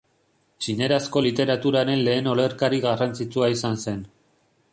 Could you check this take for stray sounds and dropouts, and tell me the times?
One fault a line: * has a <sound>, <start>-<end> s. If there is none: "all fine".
all fine